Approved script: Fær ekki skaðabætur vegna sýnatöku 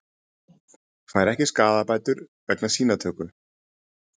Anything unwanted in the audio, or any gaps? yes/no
no